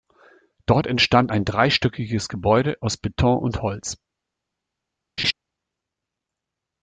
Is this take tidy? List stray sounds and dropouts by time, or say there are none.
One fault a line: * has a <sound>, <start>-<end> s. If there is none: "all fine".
* has a laugh, 5.2-5.3 s